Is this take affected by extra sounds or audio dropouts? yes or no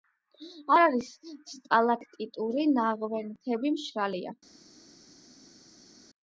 no